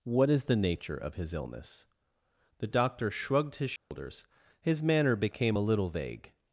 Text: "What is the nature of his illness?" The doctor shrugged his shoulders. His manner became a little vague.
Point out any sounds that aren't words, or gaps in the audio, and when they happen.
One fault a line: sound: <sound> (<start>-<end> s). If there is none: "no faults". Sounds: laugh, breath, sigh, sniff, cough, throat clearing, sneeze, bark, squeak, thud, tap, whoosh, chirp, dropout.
sound: dropout (3.8-3.9 s)